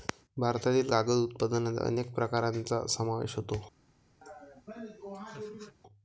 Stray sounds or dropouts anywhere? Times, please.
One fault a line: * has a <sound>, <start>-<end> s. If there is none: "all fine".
* has a laugh, 4.2-5.8 s